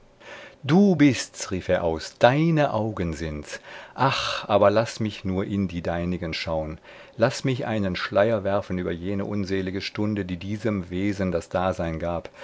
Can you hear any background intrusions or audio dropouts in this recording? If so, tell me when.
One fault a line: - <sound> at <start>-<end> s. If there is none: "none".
none